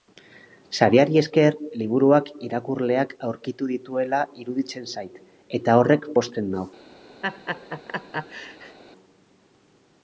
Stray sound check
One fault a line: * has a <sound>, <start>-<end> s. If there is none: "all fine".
* has a laugh, 7.2-8.8 s